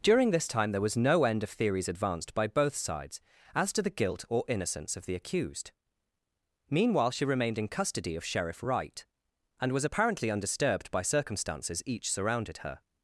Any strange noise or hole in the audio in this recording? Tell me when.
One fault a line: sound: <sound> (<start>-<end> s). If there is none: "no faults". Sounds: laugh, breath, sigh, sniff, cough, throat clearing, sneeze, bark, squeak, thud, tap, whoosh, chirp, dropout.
no faults